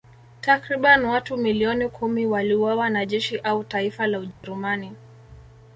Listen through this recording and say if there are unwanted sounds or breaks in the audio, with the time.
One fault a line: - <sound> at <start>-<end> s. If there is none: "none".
- dropout at 4.3-4.4 s